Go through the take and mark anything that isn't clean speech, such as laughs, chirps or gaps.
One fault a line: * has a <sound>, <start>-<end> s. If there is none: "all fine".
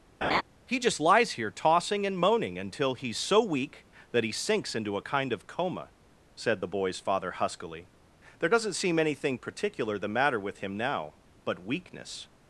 * has a laugh, 0.2-0.4 s